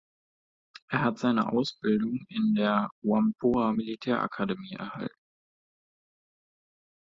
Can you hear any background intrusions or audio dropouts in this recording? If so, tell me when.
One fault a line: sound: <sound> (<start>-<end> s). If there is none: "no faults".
no faults